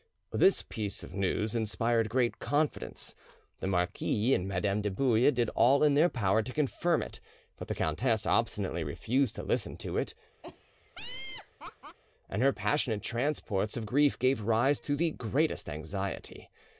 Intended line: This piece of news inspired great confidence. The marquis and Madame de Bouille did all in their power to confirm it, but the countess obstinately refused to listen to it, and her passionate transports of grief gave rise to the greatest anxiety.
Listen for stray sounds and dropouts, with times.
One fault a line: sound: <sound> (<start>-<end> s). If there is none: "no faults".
sound: laugh (10.4-12.0 s)